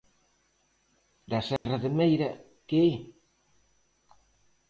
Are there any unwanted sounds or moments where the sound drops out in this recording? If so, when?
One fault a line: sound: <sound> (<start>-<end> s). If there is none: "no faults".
sound: dropout (1.6-1.7 s)